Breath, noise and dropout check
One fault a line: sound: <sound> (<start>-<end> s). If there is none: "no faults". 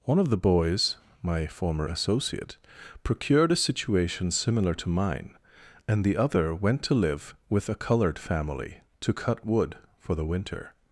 no faults